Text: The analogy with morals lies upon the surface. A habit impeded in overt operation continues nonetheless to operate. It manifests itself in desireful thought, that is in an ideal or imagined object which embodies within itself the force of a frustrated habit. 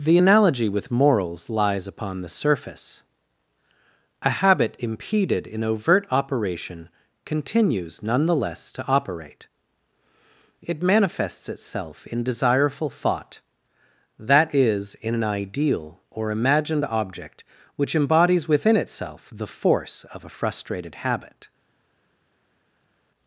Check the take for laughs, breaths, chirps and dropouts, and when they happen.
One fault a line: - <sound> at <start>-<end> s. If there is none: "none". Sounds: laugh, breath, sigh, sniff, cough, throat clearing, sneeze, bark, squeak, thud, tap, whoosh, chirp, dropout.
none